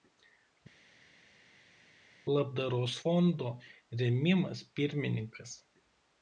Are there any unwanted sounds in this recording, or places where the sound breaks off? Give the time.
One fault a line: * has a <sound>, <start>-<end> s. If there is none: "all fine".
all fine